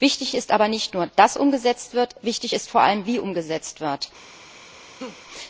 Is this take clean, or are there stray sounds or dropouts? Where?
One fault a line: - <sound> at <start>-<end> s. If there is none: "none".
- laugh at 5.0-5.2 s